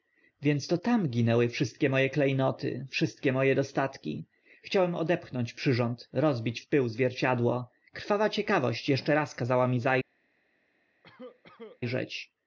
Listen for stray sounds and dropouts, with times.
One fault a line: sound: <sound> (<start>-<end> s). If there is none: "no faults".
sound: cough (11.0-11.8 s)